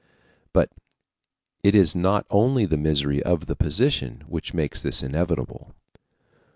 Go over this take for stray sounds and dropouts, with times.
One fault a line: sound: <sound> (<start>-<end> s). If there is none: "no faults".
no faults